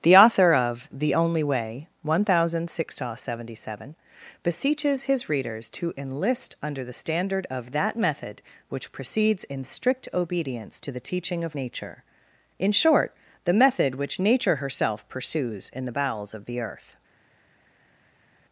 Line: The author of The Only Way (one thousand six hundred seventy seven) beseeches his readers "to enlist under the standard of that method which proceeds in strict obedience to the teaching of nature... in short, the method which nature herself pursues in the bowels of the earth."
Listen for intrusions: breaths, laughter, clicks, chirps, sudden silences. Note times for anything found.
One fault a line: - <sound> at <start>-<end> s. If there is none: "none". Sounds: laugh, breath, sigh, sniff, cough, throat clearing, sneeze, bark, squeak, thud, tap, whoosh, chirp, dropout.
none